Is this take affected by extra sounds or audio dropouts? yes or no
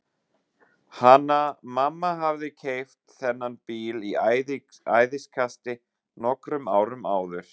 no